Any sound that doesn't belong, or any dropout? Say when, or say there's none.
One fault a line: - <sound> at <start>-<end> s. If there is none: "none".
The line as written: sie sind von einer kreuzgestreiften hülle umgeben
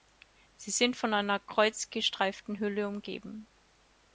none